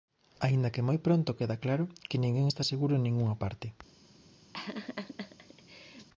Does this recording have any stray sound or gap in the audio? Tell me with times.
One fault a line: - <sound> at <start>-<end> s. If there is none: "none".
- laugh at 4.5-6.1 s